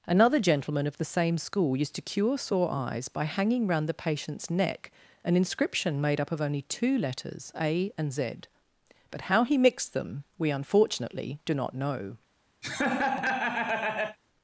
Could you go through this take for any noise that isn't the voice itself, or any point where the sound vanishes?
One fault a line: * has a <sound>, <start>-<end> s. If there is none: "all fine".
* has a laugh, 12.6-14.2 s